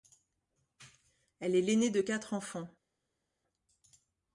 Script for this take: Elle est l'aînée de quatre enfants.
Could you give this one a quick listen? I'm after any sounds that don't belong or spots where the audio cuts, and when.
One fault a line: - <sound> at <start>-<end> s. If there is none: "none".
none